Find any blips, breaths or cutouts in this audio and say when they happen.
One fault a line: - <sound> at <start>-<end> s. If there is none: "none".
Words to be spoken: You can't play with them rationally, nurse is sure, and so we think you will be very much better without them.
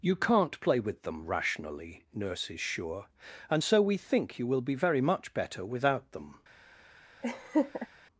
- laugh at 7.2-7.9 s